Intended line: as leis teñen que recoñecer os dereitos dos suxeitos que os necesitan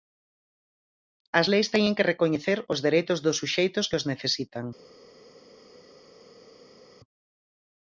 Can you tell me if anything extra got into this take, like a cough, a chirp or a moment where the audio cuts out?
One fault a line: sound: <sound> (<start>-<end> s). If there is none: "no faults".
no faults